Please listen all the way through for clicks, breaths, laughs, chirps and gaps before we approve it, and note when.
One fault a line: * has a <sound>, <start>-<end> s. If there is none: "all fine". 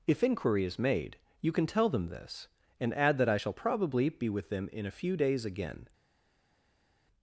all fine